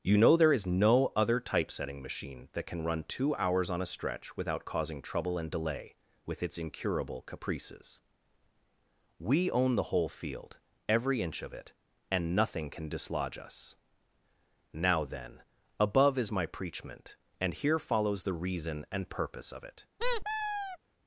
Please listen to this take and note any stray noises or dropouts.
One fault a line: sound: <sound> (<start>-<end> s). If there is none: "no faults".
sound: squeak (20.0-20.8 s)